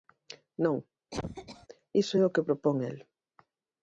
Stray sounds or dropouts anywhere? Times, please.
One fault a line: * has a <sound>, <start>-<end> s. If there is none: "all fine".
* has a cough, 1.1-1.7 s